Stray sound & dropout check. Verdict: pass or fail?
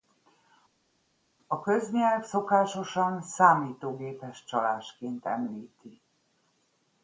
pass